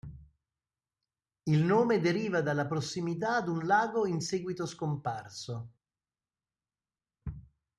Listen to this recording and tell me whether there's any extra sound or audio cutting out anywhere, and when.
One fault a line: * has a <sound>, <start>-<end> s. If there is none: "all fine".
all fine